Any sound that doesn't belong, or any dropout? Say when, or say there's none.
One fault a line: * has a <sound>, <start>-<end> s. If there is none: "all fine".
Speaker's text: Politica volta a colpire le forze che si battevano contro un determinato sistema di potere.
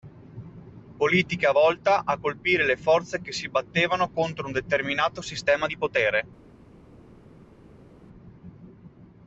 all fine